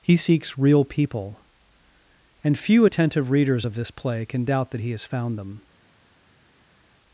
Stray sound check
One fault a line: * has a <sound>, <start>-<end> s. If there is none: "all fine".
all fine